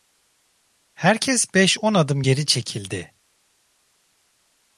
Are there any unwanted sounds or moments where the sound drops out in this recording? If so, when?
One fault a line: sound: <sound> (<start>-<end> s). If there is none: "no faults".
no faults